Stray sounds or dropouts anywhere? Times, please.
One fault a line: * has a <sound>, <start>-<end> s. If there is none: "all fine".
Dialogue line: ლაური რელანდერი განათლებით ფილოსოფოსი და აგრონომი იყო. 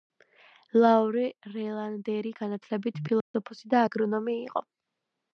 * has a dropout, 3.2-3.3 s